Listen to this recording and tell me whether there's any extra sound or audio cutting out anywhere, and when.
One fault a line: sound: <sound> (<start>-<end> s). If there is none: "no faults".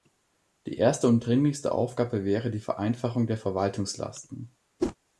sound: whoosh (4.8-5.0 s)